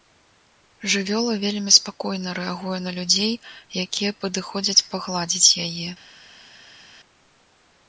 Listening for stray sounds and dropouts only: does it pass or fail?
pass